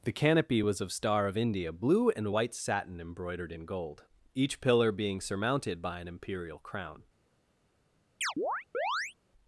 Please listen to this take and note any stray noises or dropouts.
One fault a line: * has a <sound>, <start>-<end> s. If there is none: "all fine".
* has a chirp, 8.2-9.1 s